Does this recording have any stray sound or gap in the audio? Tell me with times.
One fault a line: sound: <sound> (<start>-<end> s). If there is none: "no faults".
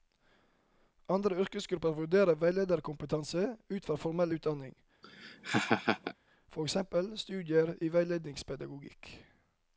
sound: laugh (5.0-6.1 s)